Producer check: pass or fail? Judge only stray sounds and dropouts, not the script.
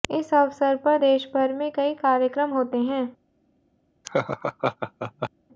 fail